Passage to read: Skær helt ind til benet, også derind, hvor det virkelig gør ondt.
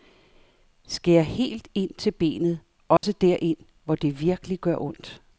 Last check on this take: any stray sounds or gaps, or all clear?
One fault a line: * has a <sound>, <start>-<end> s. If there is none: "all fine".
* has a dropout, 3.0-3.0 s